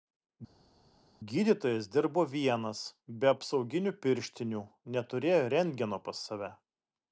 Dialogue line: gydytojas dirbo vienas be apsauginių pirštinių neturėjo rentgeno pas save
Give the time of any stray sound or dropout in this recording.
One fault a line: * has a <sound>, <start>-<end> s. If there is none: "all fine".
all fine